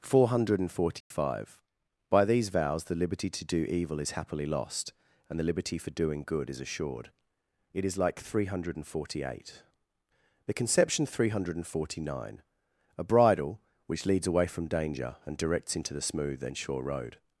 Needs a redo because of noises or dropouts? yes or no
yes